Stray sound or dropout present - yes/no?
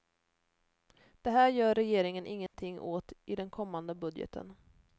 yes